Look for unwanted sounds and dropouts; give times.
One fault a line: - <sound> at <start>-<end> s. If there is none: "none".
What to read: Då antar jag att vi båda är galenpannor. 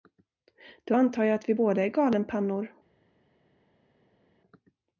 none